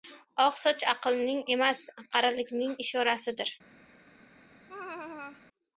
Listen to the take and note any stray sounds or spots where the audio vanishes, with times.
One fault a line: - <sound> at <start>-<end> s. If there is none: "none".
- laugh at 4.7-5.4 s